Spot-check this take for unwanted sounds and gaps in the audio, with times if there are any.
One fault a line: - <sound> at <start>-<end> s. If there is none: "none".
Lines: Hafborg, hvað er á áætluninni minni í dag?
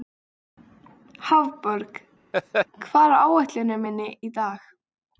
- laugh at 2.3-2.7 s